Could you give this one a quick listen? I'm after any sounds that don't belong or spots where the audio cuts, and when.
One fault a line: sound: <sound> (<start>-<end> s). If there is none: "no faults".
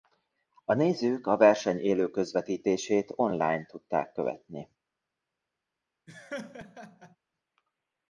sound: laugh (6.1-7.2 s)